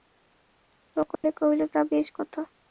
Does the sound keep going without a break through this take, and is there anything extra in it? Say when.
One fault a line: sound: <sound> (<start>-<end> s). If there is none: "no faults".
sound: dropout (1.1-1.2 s)